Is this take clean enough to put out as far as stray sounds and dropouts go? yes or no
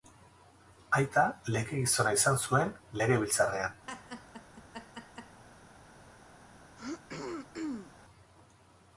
no